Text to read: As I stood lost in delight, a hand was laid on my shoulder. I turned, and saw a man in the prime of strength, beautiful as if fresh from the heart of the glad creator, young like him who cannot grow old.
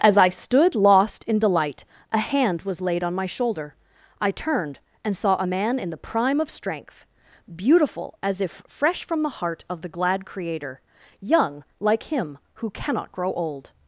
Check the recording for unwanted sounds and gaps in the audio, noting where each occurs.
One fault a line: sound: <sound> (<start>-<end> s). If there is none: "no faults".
no faults